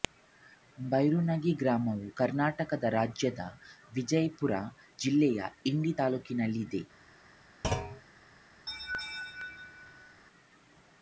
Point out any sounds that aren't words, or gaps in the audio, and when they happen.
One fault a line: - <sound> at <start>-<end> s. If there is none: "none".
- thud at 7.6-8.0 s
- laugh at 8.7-10.2 s